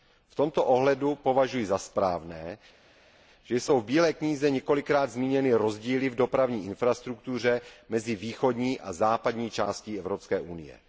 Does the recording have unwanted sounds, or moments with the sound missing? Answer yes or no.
no